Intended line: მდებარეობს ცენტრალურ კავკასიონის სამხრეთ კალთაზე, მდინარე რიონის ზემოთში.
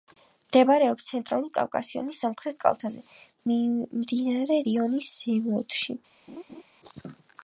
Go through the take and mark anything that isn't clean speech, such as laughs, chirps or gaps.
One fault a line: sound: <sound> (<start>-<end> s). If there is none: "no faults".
sound: laugh (6.3-6.6 s)